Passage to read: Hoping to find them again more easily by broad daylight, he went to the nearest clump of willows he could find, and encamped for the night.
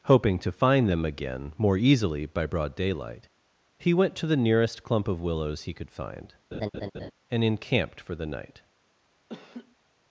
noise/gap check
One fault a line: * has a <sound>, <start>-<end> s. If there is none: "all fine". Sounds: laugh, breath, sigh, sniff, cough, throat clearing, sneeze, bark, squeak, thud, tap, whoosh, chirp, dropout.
* has a laugh, 6.5-7.1 s
* has a laugh, 9.3-9.8 s